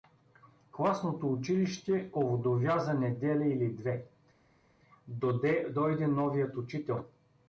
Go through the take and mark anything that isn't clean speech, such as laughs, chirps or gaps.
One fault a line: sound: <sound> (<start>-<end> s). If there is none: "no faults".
no faults